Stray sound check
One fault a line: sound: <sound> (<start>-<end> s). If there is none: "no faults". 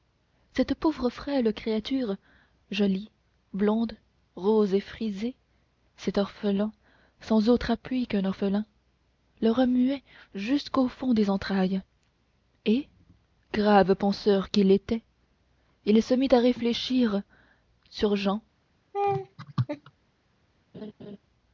sound: laugh (18.9-19.9 s)
sound: laugh (20.7-21.2 s)